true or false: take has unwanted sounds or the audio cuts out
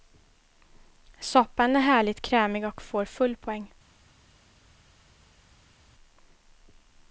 false